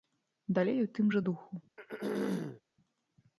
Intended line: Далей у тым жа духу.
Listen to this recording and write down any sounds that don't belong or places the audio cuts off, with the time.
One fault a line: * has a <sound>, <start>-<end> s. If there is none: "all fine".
* has a throat clearing, 1.8-2.6 s